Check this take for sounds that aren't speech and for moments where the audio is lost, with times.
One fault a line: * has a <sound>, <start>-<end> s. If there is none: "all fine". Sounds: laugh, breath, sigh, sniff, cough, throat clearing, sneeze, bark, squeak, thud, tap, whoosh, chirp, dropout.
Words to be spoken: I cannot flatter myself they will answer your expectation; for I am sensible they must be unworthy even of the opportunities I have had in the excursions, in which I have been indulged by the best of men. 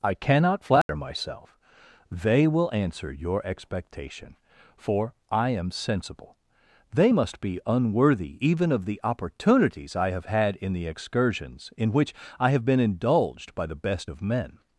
* has a dropout, 0.8-0.9 s